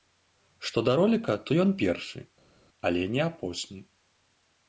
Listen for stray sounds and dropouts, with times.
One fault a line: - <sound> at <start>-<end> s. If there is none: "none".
none